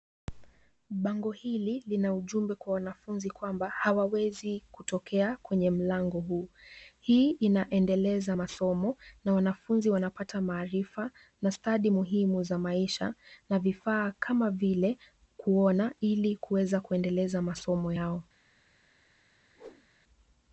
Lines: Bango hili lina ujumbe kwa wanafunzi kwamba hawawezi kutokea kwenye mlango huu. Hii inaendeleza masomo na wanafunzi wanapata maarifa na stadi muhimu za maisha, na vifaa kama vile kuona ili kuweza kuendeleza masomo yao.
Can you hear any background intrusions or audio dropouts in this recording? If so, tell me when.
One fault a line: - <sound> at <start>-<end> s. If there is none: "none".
- whoosh at 19.6-19.9 s